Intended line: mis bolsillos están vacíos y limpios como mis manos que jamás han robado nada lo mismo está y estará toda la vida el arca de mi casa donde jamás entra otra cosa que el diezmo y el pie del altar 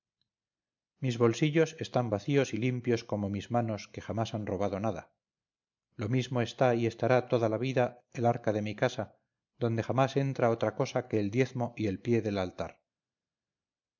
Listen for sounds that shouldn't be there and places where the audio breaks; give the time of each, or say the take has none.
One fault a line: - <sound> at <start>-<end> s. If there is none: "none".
none